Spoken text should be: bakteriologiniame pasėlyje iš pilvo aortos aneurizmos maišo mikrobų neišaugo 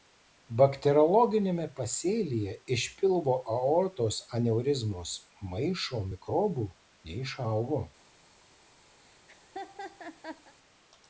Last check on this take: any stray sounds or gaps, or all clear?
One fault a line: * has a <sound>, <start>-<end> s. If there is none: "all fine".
* has a laugh, 9.0-10.5 s